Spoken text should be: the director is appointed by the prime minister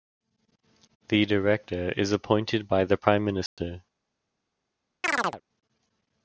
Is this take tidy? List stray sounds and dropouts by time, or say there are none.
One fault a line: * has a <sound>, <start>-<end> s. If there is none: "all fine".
* has a dropout, 3.5-3.6 s
* has a chirp, 5.0-5.4 s